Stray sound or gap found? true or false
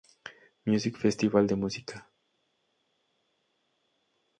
false